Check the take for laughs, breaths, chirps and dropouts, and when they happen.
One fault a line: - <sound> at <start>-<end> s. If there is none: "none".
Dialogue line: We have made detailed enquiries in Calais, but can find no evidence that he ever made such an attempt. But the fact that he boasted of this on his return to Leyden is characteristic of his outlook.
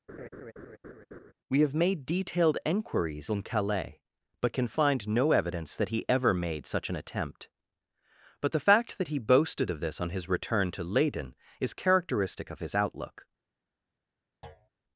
- laugh at 0.1-1.3 s
- thud at 14.4-14.7 s